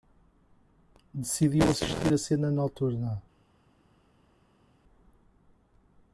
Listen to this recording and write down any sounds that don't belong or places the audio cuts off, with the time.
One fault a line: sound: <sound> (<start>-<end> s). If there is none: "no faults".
no faults